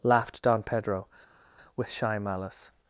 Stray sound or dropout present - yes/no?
no